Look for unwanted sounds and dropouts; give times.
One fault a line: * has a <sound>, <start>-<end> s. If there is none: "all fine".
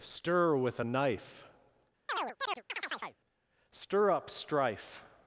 * has a chirp, 2.1-3.2 s